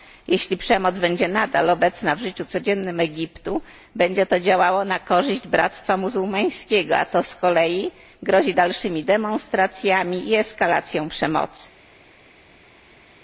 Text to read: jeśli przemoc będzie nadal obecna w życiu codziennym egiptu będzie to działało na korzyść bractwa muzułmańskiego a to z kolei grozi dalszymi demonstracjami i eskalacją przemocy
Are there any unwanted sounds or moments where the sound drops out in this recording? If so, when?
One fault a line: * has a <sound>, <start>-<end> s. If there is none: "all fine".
all fine